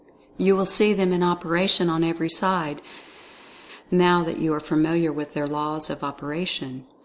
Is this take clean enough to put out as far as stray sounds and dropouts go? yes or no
yes